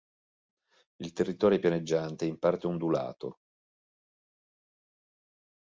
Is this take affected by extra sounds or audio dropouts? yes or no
no